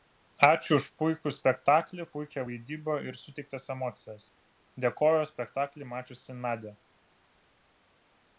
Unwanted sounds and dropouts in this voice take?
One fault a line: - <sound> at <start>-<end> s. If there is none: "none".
none